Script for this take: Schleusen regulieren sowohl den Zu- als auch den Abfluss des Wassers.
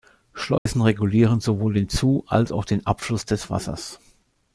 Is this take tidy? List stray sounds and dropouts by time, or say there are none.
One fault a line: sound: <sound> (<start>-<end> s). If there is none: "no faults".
sound: dropout (0.6-0.7 s)